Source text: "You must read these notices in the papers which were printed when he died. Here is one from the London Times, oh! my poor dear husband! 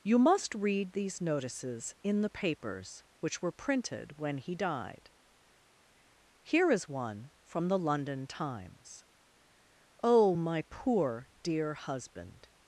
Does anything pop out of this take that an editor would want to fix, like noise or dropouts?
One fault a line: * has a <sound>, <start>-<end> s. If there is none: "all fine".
all fine